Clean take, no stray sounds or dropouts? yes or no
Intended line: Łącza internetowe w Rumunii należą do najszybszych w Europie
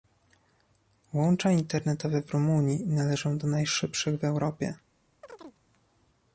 no